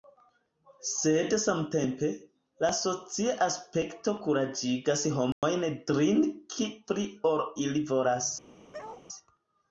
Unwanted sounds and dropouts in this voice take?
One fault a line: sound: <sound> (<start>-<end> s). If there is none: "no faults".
sound: dropout (5.3-5.4 s)
sound: bark (8.7-9.1 s)